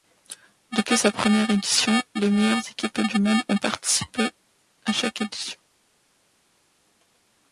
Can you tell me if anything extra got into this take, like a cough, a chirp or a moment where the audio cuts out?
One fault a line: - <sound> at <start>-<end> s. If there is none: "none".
none